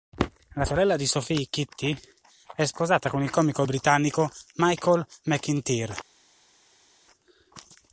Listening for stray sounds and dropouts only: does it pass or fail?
pass